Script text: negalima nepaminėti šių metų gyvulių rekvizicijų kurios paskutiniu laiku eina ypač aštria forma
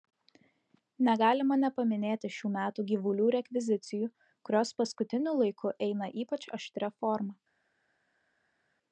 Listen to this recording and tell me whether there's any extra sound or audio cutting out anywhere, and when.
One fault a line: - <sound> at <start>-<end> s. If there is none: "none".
none